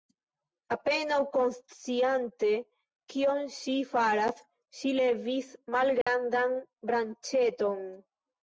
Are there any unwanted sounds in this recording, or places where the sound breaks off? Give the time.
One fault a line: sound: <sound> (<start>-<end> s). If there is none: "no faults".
sound: dropout (6.0-6.1 s)